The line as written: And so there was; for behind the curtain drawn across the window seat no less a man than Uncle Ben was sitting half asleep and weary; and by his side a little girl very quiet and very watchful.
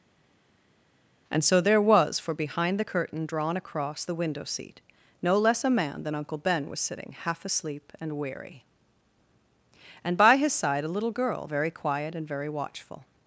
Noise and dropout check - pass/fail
pass